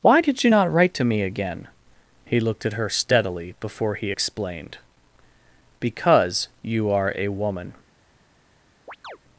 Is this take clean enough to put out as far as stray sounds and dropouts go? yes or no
no